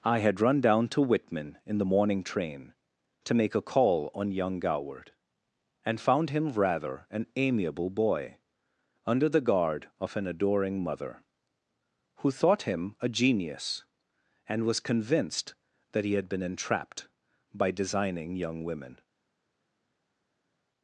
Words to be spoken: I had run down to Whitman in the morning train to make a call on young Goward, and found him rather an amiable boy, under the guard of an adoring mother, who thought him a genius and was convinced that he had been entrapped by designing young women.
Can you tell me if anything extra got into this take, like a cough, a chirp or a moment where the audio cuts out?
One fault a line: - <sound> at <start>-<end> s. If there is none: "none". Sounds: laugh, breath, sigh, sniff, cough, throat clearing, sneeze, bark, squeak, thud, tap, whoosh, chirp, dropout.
none